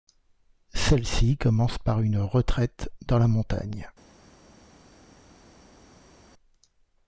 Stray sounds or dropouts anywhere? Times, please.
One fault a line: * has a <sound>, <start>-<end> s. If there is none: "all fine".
all fine